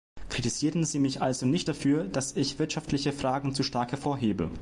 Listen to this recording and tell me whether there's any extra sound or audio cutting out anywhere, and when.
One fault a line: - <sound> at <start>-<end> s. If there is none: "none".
none